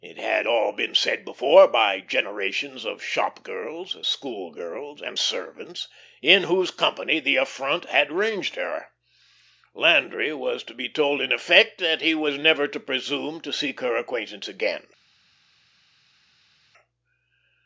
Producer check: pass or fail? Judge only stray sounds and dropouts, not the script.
pass